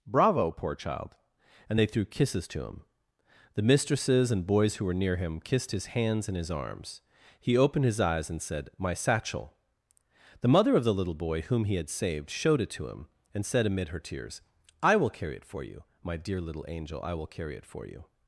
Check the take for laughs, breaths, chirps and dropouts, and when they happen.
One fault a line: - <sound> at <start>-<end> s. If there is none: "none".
none